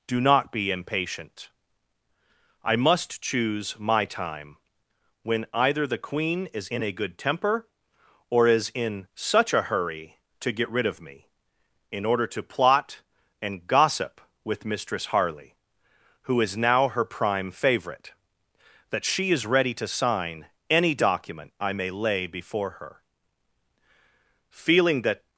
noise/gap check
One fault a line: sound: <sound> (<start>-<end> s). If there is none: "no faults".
no faults